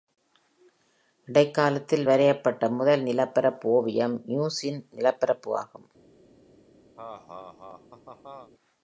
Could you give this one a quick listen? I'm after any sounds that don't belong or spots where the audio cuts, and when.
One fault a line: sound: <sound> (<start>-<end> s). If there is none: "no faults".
sound: laugh (7.0-8.5 s)